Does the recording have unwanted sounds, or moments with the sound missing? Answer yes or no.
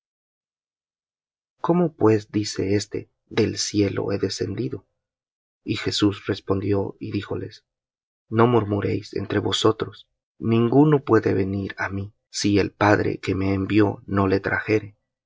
no